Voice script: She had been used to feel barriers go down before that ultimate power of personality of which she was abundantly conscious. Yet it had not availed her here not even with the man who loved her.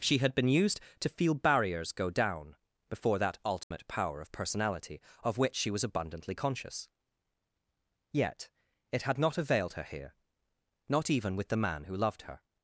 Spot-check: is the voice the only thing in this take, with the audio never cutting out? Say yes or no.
no